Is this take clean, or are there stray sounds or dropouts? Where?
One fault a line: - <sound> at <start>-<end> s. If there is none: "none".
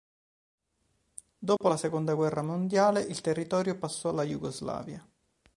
- dropout at 1.6-1.6 s